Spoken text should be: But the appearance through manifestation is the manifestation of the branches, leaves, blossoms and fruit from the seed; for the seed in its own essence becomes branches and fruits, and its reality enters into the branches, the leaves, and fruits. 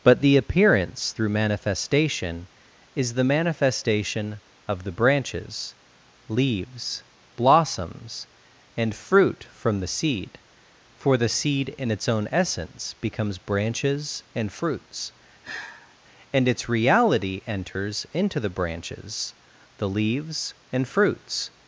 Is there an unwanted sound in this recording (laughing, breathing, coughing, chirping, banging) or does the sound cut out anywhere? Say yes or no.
yes